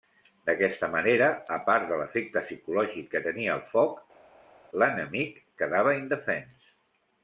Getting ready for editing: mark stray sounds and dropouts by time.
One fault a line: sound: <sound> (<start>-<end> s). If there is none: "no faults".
no faults